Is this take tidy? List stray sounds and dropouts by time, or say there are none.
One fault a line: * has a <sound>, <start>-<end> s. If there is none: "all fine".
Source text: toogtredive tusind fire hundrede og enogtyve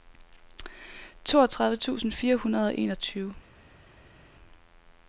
all fine